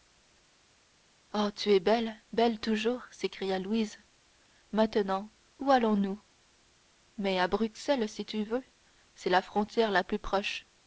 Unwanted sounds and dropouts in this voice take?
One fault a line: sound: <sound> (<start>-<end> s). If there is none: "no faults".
no faults